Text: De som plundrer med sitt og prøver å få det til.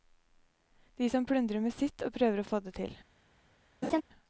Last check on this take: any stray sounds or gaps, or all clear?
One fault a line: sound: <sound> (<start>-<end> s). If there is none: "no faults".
sound: laugh (3.8-4.0 s)